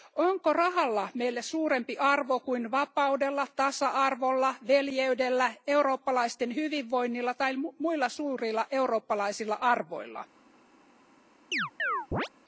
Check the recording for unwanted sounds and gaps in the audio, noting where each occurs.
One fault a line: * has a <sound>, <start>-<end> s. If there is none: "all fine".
* has a chirp, 11.5-12.3 s